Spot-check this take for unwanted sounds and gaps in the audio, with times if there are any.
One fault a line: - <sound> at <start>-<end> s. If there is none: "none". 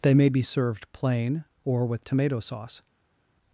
none